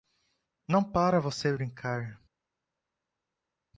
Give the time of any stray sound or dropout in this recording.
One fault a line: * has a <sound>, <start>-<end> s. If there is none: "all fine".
all fine